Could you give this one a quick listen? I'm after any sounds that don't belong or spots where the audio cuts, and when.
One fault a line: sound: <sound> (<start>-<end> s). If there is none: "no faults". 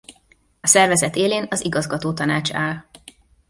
no faults